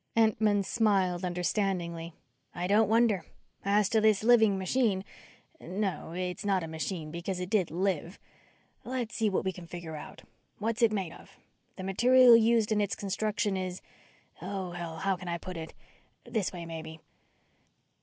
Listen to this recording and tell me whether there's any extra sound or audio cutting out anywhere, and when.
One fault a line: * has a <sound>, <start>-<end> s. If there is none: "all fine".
all fine